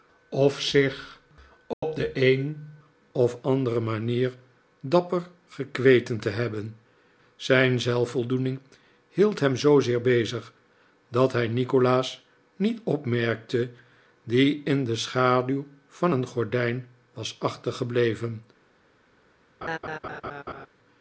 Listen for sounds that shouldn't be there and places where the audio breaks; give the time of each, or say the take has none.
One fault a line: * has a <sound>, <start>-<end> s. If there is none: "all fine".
* has a dropout, 1.7-1.8 s
* has a laugh, 19.6-20.7 s